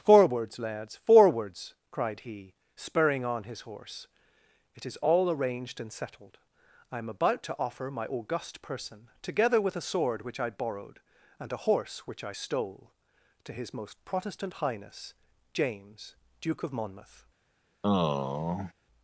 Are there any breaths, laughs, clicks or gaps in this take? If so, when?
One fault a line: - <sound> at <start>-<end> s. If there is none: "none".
- sigh at 17.8-18.7 s